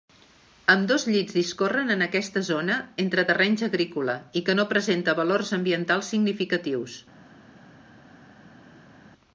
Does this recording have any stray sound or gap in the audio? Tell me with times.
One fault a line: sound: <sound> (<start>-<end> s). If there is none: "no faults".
no faults